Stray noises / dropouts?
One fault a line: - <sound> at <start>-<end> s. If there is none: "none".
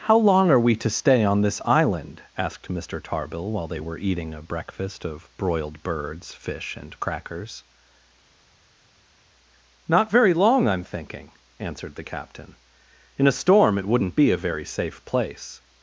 none